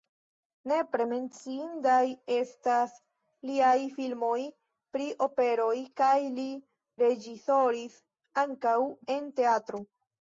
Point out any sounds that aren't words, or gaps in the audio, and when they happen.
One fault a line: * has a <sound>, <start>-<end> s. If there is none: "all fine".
all fine